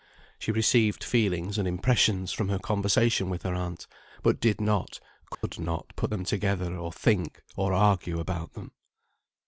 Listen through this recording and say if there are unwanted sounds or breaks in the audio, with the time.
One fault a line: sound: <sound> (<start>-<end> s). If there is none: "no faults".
sound: dropout (5.3-5.4 s)